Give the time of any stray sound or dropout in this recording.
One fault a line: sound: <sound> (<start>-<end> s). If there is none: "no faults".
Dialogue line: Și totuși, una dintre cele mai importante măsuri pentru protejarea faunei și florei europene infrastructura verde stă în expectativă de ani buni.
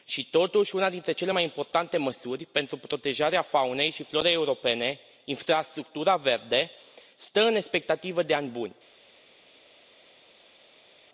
no faults